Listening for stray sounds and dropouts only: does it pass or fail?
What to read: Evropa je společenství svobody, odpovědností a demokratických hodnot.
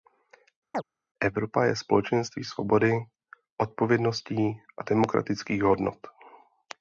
fail